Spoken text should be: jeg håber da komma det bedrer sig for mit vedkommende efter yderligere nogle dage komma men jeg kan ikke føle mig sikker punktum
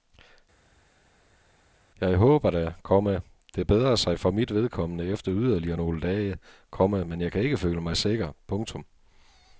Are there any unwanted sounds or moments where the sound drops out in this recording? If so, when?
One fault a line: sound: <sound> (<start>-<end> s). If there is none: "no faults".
no faults